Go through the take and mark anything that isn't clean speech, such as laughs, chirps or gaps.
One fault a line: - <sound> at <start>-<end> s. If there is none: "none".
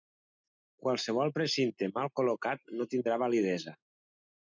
none